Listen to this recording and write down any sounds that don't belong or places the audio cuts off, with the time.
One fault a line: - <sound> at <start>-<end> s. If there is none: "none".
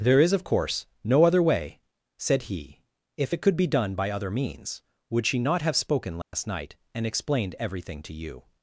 - dropout at 6.2-6.3 s